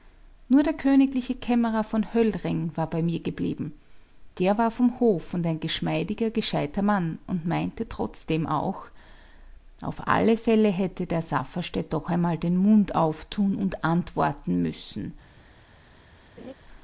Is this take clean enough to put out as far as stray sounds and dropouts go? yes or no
no